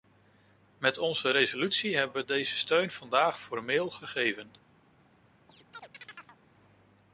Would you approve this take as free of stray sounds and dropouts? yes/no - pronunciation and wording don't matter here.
no